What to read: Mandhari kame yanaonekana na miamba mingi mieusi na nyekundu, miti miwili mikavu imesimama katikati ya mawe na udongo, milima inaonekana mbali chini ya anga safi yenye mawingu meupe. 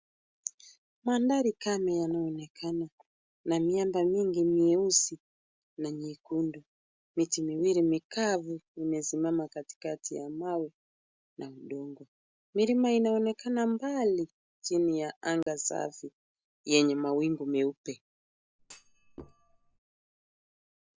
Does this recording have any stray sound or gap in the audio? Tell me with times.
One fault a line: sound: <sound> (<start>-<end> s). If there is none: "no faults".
sound: dropout (15.4-15.5 s)
sound: thud (18.6-19.8 s)